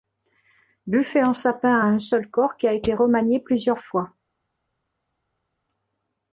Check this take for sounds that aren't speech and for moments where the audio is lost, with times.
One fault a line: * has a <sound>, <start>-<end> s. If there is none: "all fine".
all fine